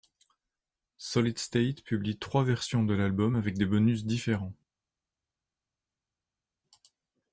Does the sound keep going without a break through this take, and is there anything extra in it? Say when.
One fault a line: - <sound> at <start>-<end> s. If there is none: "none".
none